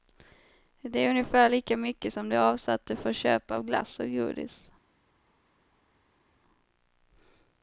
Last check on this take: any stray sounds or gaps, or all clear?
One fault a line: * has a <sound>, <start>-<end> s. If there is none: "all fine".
all fine